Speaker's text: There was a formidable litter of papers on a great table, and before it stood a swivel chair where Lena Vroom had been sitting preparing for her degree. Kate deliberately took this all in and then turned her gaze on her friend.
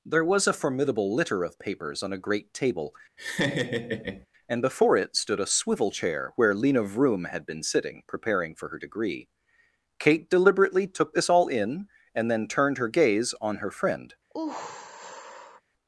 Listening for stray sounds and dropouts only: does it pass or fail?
fail